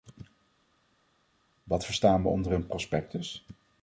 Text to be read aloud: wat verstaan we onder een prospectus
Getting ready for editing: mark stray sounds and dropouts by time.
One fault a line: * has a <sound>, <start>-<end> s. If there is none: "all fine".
all fine